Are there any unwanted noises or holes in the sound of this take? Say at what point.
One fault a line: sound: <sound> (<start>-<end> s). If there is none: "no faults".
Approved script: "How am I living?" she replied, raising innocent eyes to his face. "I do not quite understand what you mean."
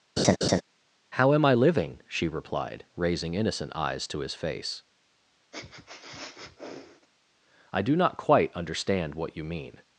sound: laugh (0.2-0.6 s)
sound: sniff (5.5-7.1 s)